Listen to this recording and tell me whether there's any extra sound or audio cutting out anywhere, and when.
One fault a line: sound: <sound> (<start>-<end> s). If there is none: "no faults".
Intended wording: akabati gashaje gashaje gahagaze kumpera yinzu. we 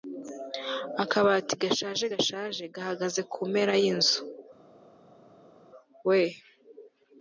no faults